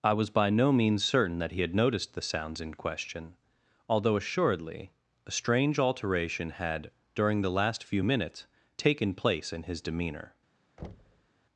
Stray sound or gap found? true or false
true